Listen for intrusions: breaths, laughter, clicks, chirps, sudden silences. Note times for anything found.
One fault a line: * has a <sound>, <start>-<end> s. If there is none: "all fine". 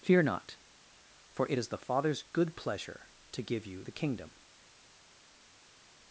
all fine